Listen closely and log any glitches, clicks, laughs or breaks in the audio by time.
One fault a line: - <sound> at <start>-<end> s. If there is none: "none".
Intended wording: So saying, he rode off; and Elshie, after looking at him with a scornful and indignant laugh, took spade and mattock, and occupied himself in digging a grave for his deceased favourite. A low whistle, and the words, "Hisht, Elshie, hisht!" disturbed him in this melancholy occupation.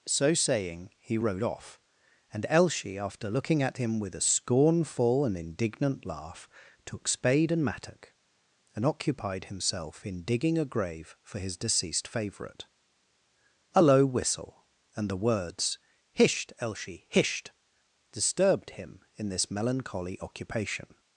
none